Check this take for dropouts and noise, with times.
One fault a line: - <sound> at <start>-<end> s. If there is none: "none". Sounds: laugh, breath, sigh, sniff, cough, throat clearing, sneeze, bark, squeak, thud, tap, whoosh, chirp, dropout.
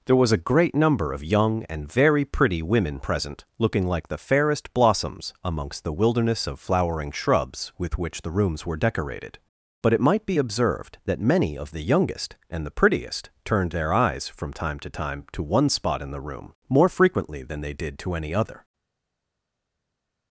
none